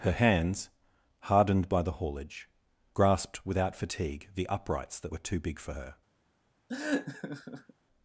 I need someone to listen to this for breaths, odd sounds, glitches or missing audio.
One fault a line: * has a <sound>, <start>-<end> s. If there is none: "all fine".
* has a laugh, 6.7-7.7 s